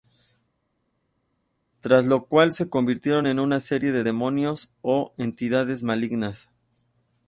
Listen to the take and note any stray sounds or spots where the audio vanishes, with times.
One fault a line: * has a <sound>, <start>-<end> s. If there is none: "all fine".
all fine